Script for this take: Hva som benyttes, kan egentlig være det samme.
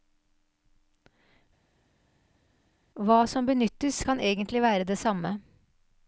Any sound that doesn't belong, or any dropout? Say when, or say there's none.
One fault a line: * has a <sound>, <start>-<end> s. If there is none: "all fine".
all fine